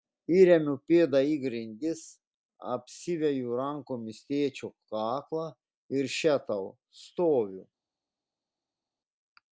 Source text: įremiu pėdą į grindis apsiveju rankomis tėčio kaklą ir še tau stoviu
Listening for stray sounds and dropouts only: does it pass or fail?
pass